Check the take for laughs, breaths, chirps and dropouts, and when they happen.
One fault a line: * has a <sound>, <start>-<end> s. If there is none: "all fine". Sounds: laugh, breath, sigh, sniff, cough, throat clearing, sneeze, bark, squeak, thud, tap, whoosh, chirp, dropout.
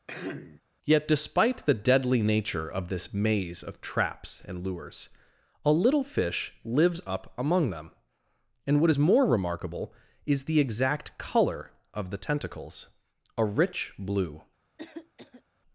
* has a throat clearing, 0.1-0.6 s
* has a cough, 14.8-15.4 s